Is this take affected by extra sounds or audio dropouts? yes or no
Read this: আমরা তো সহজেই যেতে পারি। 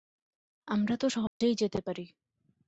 yes